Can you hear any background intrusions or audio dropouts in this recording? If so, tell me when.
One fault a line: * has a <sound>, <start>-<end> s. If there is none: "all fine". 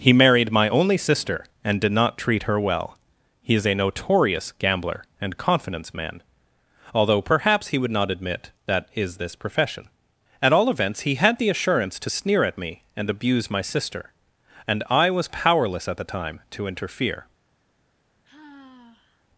* has a sigh, 18.2-19.3 s